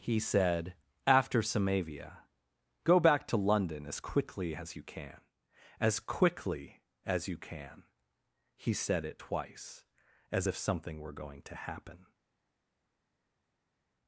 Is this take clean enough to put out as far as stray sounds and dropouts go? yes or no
yes